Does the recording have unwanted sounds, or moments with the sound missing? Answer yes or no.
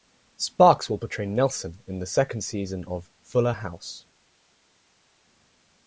no